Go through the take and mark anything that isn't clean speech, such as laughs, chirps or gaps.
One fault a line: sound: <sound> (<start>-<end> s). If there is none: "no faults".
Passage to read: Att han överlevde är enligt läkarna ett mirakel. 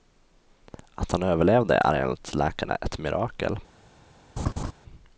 sound: laugh (4.4-4.7 s)